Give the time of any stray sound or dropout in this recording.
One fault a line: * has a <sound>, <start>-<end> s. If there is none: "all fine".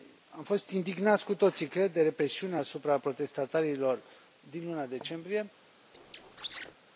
* has a squeak, 5.9-6.8 s